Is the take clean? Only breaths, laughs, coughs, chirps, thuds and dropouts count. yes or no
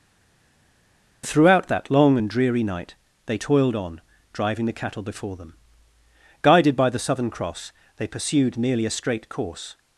yes